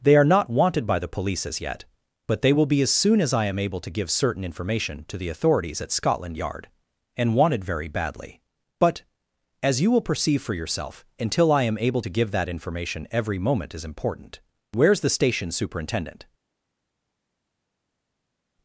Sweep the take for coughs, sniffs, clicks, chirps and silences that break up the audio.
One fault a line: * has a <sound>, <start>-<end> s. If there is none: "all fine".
all fine